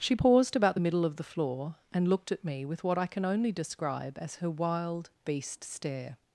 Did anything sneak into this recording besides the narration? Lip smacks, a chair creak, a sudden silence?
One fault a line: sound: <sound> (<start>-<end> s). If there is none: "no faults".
no faults